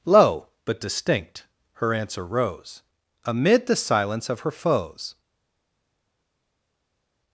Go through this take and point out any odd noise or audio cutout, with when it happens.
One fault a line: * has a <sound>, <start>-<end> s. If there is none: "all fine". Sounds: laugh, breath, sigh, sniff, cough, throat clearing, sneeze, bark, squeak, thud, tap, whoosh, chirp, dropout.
all fine